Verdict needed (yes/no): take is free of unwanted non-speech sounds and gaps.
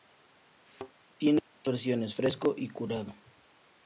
no